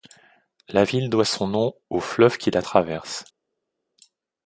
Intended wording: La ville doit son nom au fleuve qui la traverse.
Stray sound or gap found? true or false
false